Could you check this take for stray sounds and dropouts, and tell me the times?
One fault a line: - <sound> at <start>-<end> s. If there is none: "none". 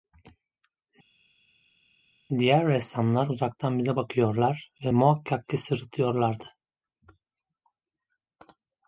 none